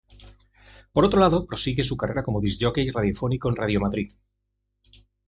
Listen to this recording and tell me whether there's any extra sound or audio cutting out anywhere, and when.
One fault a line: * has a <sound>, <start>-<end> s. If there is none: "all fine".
all fine